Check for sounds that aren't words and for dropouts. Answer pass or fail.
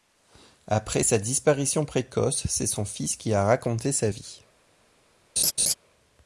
fail